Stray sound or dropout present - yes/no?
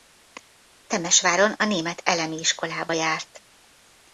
no